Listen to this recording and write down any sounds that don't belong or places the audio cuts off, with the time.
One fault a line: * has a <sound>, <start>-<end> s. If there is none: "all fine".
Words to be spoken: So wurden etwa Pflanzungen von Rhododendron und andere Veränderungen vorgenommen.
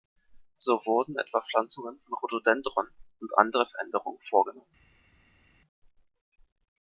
all fine